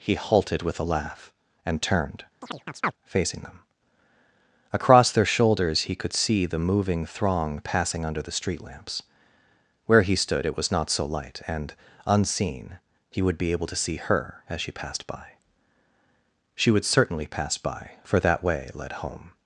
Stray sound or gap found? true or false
true